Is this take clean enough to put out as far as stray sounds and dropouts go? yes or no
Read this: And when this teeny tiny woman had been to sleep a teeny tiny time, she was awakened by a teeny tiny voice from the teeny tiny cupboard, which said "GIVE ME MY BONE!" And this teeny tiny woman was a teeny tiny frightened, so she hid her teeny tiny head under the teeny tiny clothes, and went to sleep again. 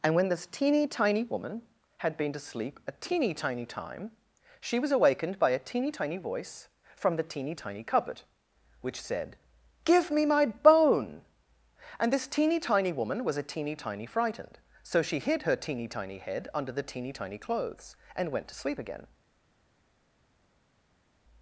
yes